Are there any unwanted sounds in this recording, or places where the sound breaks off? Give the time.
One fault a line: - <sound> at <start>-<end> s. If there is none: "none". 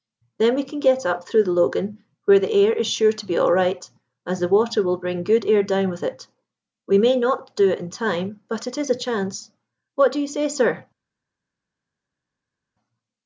none